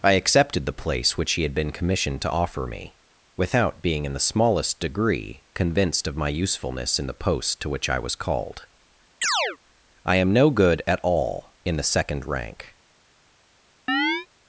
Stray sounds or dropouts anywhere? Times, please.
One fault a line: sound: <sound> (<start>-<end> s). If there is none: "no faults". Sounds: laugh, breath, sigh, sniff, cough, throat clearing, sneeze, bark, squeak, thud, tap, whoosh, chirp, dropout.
sound: chirp (9.2-9.6 s)
sound: chirp (13.9-14.3 s)